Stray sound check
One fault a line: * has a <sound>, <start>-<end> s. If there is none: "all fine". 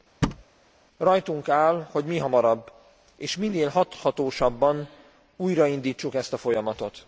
* has a thud, 0.2-0.4 s